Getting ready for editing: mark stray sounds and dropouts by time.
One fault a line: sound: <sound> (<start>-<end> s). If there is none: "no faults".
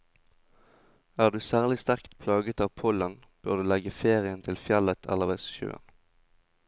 no faults